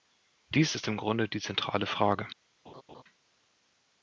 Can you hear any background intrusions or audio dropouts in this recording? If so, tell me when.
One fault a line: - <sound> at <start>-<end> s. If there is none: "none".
- laugh at 2.6-3.0 s